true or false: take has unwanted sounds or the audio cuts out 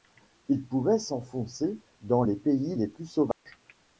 true